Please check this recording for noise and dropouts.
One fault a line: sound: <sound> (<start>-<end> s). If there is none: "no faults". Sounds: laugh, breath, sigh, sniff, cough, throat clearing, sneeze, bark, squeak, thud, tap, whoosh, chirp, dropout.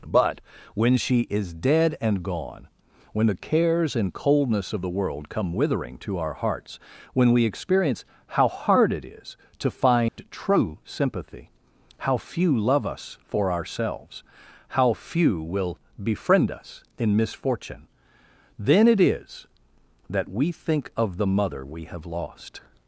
sound: dropout (10.1-10.2 s)